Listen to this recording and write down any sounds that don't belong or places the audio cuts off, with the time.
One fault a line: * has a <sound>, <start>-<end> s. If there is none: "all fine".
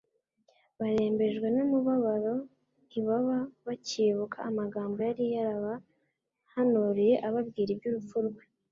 all fine